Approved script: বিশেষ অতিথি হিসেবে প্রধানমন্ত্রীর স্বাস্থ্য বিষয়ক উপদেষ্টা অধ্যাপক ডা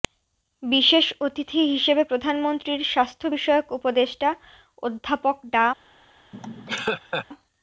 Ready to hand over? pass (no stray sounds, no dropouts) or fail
fail